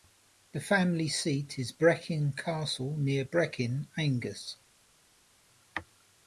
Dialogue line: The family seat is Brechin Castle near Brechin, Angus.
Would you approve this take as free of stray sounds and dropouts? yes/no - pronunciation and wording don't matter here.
yes